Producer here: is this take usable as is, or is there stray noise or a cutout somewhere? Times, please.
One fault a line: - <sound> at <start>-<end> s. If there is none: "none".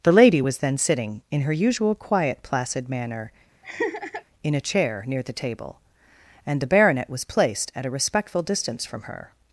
- laugh at 3.6-4.2 s